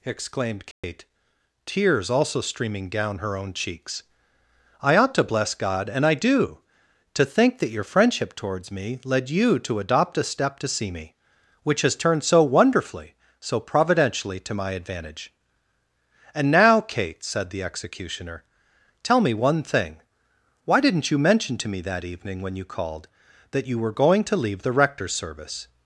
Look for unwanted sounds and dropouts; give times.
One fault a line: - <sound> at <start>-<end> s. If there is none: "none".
- dropout at 0.7-0.8 s